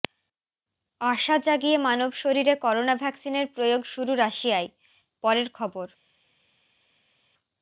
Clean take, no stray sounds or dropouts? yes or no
yes